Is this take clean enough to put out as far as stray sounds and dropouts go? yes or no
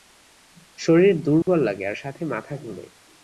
no